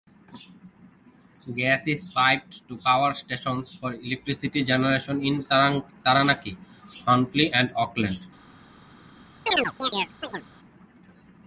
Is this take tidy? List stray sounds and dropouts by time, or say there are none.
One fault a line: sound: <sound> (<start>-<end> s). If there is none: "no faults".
sound: chirp (9.5-10.5 s)